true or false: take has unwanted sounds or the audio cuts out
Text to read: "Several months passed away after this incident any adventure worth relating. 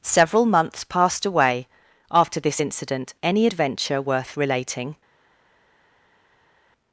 false